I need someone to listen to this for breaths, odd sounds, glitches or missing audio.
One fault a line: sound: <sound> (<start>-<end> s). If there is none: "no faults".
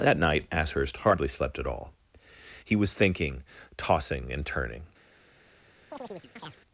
sound: chirp (5.9-6.6 s)